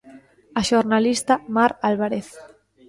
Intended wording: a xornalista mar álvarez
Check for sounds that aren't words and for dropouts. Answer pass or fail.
pass